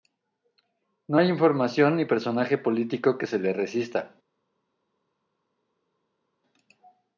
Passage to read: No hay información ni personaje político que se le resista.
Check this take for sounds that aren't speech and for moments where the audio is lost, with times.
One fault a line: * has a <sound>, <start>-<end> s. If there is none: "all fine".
all fine